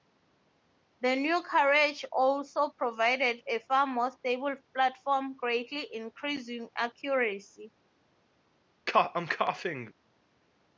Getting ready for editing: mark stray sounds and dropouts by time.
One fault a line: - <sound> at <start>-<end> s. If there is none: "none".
- cough at 8.9-9.9 s